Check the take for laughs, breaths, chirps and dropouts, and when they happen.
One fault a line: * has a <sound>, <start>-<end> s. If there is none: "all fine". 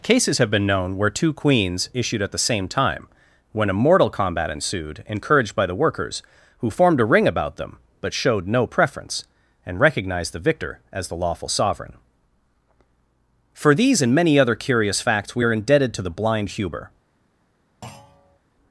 * has a thud, 17.8-18.4 s